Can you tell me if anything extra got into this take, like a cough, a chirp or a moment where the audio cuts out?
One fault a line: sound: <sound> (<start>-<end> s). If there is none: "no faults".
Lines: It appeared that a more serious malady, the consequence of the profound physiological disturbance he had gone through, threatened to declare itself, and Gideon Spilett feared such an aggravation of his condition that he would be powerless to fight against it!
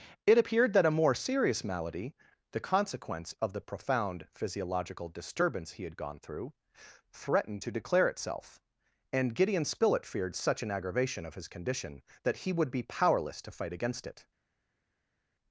no faults